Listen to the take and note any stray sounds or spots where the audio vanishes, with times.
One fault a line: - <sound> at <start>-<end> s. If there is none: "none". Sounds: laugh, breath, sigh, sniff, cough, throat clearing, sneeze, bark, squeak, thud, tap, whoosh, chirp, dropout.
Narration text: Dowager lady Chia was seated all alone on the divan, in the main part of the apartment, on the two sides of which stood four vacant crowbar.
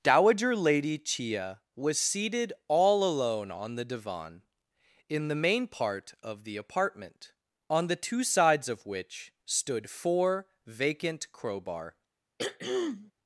- throat clearing at 12.4-13.1 s